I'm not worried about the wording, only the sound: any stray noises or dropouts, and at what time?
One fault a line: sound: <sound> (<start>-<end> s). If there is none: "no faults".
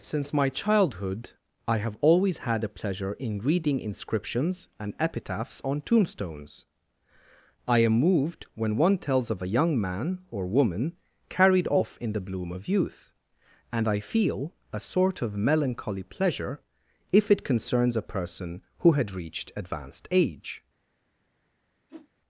sound: whoosh (21.9-22.1 s)